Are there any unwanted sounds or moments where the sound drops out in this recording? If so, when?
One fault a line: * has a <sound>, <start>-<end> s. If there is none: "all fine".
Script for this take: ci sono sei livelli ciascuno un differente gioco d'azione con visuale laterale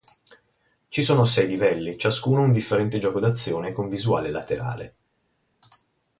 all fine